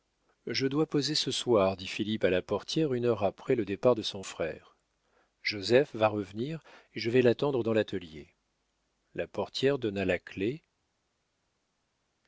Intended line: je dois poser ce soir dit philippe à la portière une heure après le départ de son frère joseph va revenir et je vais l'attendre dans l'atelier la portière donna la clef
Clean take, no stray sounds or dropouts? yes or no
yes